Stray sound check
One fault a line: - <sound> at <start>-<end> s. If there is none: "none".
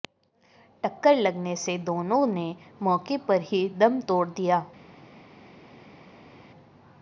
none